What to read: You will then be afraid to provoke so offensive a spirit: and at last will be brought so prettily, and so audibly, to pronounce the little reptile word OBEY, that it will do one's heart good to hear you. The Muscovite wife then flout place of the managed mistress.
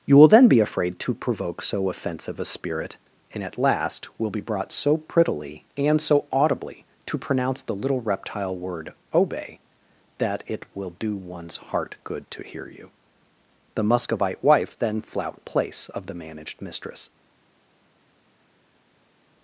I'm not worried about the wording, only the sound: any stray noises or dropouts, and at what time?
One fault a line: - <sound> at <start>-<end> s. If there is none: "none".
none